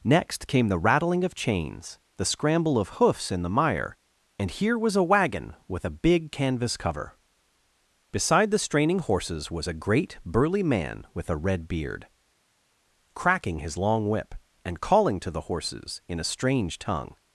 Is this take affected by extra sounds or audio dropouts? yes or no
no